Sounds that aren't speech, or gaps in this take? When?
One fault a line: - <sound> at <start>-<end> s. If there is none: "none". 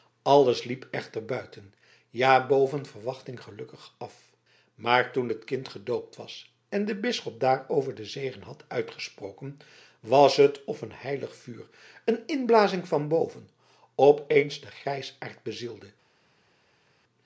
none